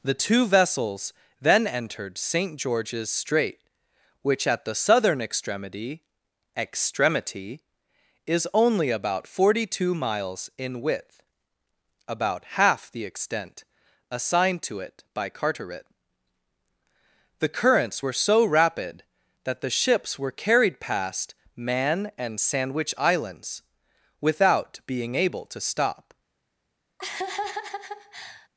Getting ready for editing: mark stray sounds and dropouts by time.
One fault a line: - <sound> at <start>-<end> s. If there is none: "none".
- laugh at 27.0-28.5 s